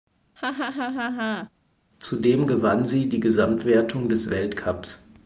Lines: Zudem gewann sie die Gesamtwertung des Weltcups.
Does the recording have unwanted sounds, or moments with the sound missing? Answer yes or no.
yes